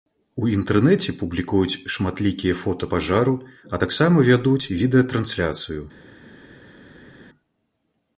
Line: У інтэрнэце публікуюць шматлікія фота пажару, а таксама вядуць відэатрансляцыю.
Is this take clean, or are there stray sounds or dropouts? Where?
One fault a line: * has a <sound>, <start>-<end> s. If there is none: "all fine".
all fine